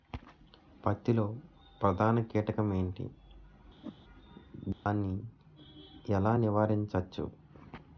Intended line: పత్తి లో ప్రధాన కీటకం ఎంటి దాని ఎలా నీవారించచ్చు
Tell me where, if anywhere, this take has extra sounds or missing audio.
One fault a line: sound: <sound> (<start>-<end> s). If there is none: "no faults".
sound: whoosh (3.8-4.0 s)
sound: dropout (4.7-4.9 s)